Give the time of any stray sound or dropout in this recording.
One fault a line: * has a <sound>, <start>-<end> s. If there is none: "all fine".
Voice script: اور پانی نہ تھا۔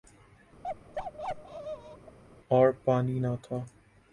* has a bark, 0.6-2.2 s